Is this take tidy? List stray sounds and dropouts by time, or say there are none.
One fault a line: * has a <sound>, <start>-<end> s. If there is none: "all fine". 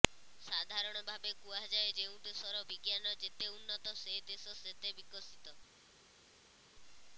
all fine